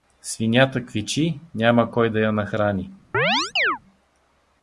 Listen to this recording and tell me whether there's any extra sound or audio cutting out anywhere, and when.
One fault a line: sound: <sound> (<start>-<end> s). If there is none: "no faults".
sound: chirp (3.1-3.8 s)